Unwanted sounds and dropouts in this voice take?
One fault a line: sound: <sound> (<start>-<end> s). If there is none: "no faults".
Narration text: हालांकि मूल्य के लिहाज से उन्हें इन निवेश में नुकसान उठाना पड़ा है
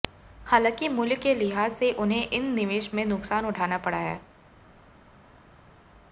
no faults